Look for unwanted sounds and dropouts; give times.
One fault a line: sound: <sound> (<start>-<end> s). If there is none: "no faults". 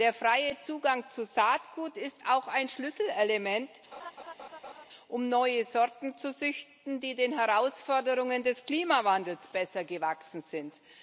sound: laugh (3.9-4.8 s)